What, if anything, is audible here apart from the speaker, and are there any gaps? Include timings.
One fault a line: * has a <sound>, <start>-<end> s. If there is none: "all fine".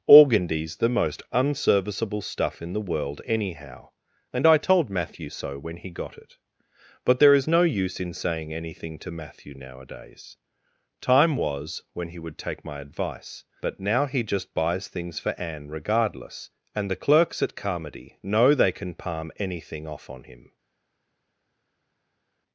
all fine